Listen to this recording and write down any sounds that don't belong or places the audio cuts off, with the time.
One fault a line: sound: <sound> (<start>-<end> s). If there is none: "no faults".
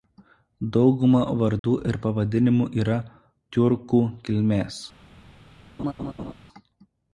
sound: dropout (1.6-1.6 s)
sound: laugh (5.8-6.3 s)